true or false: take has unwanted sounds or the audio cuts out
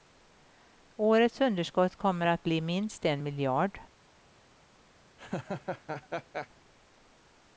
true